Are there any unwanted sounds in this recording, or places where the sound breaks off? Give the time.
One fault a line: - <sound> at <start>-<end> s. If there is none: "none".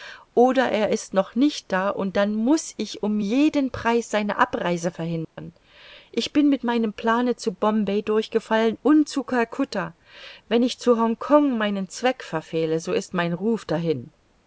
- dropout at 5.2-5.4 s